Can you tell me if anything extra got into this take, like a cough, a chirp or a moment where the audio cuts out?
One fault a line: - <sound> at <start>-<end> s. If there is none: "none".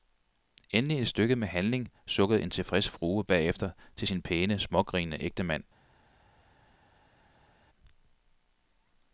none